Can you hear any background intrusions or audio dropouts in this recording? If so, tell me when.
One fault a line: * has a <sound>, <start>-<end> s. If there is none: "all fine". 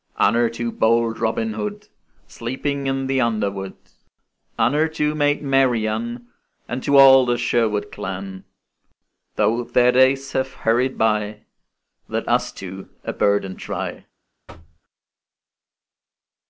* has a thud, 14.5-14.8 s